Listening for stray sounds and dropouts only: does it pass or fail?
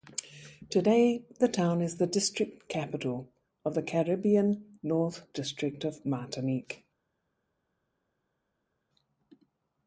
pass